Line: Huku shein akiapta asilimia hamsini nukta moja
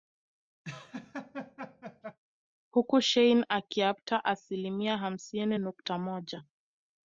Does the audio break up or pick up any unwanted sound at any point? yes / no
yes